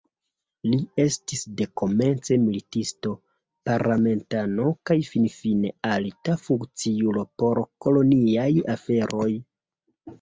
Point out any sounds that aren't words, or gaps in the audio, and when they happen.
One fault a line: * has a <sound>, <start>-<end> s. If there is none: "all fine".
all fine